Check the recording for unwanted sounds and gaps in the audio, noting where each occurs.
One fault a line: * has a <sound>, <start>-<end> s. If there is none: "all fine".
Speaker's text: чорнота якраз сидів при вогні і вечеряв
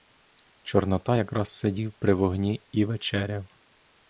all fine